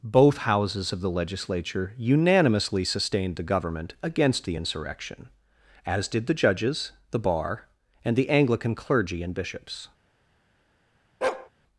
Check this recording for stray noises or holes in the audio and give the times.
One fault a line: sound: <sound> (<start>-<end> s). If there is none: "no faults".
sound: bark (11.2-11.5 s)